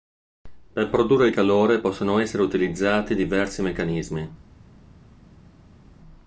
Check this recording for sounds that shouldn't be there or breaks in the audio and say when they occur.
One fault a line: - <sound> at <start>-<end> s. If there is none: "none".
none